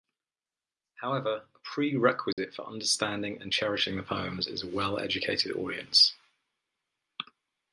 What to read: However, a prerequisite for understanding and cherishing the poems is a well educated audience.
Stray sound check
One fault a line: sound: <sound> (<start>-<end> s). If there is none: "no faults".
sound: dropout (2.3-2.4 s)